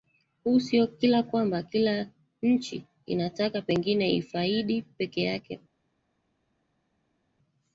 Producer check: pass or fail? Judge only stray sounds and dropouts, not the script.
pass